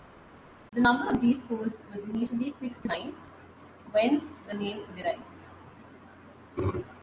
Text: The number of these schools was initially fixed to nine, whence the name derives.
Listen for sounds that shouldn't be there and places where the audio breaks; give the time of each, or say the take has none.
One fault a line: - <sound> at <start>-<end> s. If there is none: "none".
none